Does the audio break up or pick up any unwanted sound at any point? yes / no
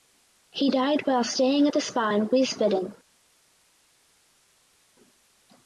no